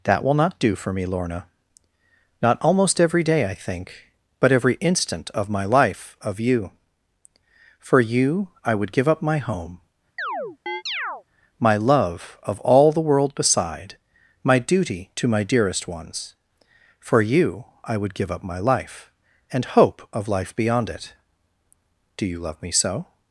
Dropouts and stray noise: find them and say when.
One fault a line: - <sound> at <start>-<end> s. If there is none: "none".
- chirp at 10.2-11.2 s